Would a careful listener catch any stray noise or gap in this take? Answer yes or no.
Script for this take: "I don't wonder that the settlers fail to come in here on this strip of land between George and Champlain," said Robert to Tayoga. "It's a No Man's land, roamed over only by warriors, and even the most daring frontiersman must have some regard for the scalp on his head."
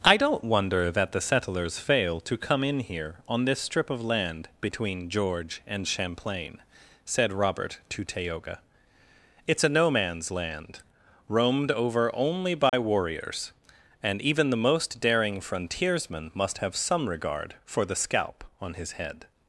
yes